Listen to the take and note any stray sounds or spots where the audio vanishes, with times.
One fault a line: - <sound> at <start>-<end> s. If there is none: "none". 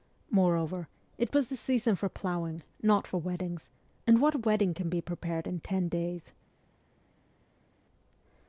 none